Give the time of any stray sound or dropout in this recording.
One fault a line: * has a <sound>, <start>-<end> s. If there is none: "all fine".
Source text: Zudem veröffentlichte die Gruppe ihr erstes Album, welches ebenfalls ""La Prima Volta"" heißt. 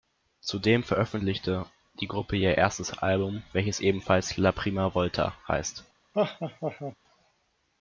* has a laugh, 6.1-7.0 s